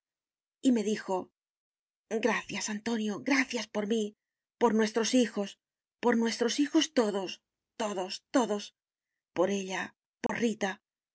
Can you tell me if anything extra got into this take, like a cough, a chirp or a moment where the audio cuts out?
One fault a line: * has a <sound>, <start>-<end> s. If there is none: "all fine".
* has a dropout, 10.3-10.3 s